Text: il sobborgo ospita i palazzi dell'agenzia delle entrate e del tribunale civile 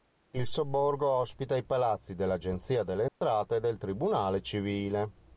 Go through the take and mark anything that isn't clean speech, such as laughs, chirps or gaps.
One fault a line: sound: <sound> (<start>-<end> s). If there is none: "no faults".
sound: dropout (3.1-3.2 s)